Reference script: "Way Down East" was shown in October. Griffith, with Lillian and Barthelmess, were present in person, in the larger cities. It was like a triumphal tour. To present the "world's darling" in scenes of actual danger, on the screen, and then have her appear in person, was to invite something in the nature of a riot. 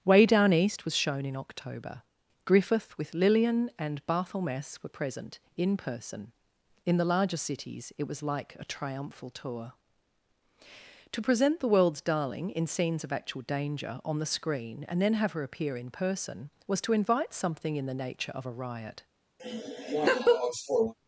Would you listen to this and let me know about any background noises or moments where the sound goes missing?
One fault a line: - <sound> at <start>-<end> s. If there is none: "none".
- laugh at 19.4-20.9 s